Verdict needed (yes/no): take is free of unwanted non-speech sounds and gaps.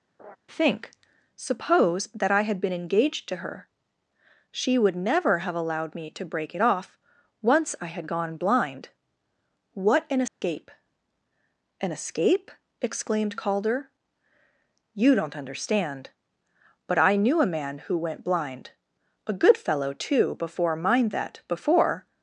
no